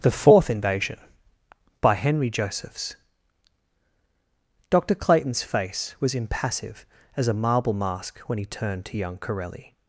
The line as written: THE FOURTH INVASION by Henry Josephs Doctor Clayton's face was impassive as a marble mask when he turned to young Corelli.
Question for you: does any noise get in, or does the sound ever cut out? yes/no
no